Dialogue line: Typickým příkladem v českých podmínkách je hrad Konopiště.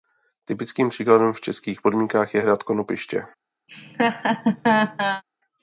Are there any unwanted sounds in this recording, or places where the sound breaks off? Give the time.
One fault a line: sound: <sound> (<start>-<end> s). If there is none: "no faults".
sound: laugh (3.7-5.2 s)